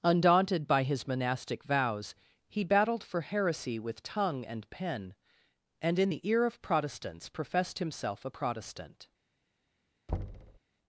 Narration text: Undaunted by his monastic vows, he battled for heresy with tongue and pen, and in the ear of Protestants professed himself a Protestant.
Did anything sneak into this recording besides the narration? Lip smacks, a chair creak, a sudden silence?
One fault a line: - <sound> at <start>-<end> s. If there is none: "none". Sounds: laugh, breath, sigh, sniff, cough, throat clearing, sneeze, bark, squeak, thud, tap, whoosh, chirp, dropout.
- thud at 10.1-10.6 s